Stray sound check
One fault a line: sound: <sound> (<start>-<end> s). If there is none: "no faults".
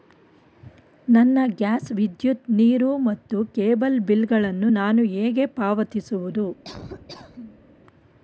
sound: laugh (6.6-7.7 s)